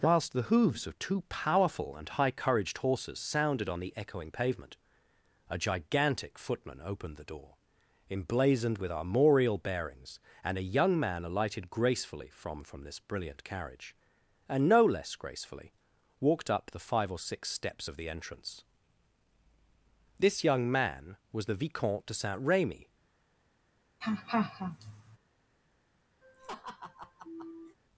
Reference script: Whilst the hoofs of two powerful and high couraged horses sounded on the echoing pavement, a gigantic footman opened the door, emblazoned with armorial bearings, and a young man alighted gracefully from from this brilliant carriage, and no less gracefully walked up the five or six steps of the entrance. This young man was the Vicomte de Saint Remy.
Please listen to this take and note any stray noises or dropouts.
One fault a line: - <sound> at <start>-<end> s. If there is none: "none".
- laugh at 24.0-25.2 s
- laugh at 26.2-27.8 s